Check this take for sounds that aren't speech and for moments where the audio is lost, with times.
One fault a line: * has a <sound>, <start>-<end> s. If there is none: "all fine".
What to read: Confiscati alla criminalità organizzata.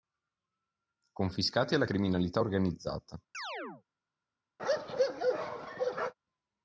* has a chirp, 3.3-3.8 s
* has a bark, 4.6-6.1 s